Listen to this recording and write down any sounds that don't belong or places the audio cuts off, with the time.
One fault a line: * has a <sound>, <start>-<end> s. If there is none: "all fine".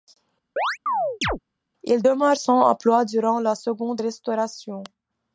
* has a chirp, 0.6-1.4 s